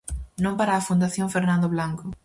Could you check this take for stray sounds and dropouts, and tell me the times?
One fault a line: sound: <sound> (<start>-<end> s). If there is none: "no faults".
no faults